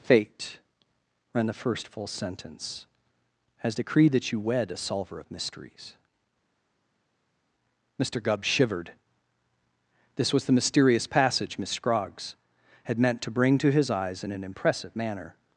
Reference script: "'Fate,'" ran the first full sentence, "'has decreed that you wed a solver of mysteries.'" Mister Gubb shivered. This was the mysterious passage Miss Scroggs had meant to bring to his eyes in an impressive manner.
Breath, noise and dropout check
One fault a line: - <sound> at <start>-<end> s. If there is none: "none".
none